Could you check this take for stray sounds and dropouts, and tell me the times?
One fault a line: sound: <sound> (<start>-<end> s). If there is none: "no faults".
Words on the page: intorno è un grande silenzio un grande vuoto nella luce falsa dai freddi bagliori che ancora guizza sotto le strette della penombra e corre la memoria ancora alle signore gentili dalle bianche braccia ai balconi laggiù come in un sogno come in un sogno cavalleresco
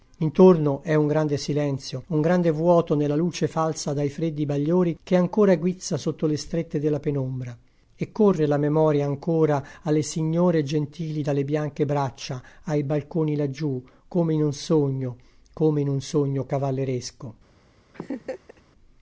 sound: laugh (17.9-18.6 s)